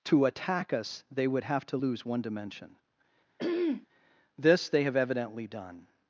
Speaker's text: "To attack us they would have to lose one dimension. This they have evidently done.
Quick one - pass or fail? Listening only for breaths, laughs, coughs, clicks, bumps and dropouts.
fail